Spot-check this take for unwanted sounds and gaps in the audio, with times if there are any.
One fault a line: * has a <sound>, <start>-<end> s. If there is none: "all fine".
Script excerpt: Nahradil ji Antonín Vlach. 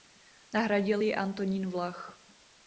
all fine